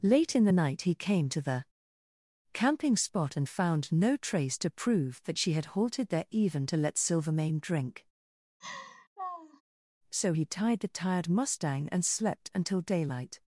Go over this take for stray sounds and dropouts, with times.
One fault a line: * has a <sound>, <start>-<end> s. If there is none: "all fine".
* has a laugh, 8.6-9.6 s